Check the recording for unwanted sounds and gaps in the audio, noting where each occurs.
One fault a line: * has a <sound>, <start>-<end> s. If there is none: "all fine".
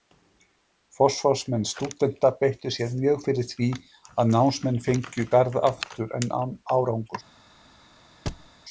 * has a thud, 8.3-8.5 s